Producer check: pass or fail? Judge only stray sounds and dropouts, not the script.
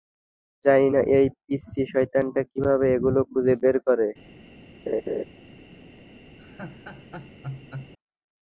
fail